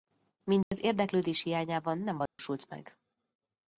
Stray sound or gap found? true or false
true